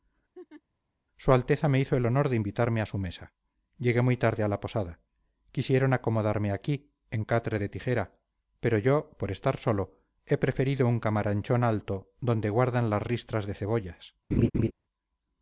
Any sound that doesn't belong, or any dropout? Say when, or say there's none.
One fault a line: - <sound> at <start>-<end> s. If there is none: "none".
- laugh at 0.3-0.6 s
- laugh at 14.3-14.7 s